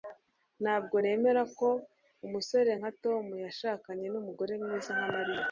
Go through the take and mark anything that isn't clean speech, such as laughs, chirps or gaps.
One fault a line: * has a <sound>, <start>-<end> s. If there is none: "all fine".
all fine